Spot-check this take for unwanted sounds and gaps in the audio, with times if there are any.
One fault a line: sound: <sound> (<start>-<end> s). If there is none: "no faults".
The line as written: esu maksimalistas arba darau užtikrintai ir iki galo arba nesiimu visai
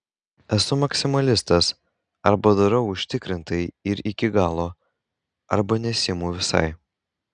no faults